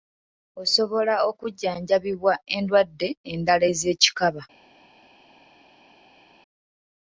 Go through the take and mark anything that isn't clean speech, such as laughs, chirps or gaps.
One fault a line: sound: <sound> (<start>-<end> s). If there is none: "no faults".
no faults